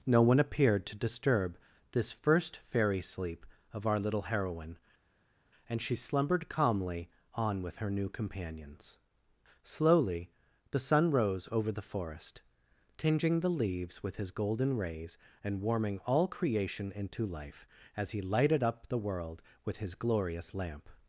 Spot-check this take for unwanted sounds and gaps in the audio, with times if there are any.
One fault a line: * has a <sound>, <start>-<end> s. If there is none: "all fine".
all fine